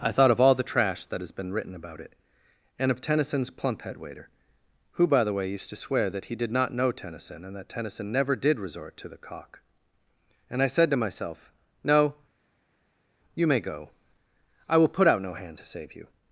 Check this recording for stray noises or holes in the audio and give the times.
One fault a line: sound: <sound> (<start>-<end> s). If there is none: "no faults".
no faults